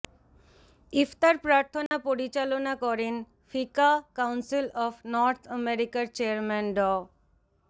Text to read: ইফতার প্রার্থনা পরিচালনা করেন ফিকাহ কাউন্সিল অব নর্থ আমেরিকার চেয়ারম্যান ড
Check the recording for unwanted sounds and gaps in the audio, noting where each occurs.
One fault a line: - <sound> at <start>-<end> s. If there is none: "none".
- dropout at 1.9-1.9 s